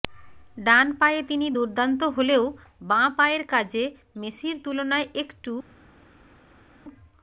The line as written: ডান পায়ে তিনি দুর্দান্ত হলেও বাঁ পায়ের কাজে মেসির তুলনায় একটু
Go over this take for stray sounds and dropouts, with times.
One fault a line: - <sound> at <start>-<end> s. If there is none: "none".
none